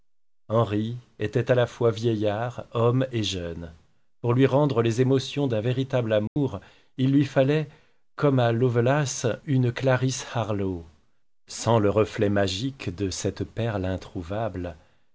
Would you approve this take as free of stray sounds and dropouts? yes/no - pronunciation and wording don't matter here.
no